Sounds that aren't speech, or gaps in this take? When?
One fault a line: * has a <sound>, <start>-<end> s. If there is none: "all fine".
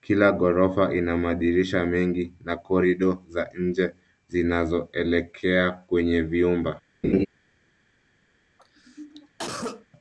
* has a laugh, 7.0-7.3 s
* has a cough, 8.6-9.9 s